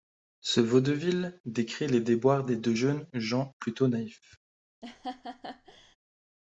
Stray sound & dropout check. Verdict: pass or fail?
fail